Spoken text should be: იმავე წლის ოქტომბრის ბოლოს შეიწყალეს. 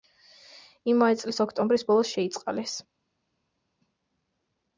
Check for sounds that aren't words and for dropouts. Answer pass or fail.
pass